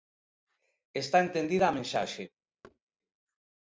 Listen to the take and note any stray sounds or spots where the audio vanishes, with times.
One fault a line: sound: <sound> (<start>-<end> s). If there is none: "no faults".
sound: thud (2.6-2.8 s)